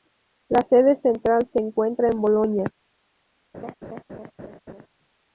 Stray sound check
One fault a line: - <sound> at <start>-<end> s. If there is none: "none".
- laugh at 3.5-4.9 s